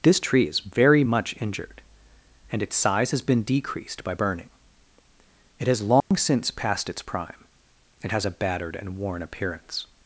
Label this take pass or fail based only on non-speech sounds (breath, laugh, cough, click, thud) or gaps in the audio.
fail